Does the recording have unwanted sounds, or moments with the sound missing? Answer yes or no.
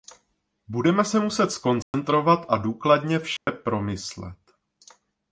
yes